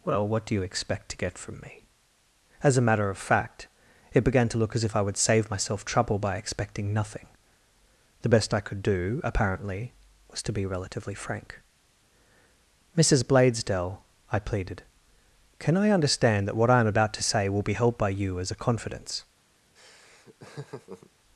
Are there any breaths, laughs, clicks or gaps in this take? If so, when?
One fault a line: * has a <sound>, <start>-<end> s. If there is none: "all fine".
* has a laugh, 19.8-21.1 s